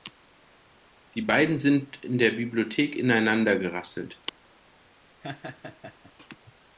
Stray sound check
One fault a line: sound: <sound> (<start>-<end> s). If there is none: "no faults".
sound: laugh (5.2-6.1 s)